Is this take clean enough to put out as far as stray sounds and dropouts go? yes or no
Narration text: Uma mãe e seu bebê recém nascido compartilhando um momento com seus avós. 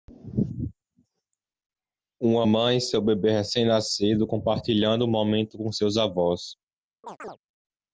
no